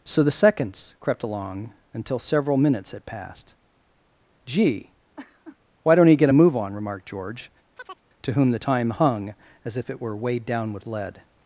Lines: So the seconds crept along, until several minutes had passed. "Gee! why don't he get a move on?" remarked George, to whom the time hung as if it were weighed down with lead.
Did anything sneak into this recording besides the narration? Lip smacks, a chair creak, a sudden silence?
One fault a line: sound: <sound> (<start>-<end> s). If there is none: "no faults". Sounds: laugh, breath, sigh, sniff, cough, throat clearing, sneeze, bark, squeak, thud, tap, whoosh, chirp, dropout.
sound: laugh (5.2-5.6 s)
sound: chirp (7.8-8.1 s)